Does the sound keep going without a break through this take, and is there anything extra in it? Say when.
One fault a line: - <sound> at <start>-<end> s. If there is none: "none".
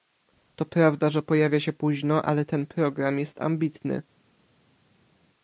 none